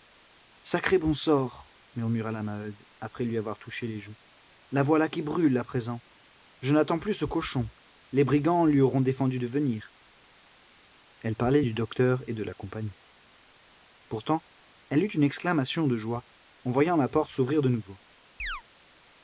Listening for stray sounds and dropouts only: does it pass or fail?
fail